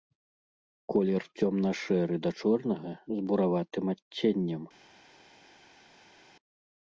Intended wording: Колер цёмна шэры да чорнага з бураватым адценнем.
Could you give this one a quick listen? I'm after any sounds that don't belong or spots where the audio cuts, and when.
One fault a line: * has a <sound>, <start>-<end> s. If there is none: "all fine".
all fine